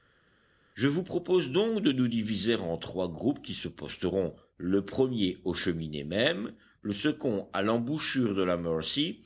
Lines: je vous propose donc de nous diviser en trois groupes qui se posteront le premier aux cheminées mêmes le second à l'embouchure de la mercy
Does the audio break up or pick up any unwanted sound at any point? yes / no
no